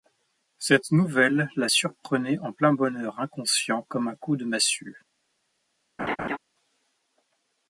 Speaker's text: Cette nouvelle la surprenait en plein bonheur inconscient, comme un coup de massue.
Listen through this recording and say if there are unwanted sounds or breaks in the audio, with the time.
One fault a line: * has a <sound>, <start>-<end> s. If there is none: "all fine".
* has a laugh, 6.0-6.4 s